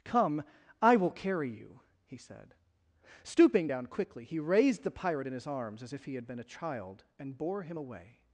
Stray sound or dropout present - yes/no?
no